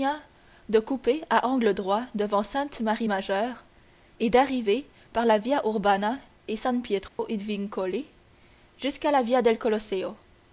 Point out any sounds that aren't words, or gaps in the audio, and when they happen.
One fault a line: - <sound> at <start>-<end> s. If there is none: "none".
- dropout at 7.1-7.2 s